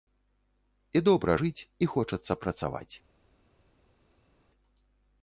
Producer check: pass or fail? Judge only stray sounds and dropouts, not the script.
pass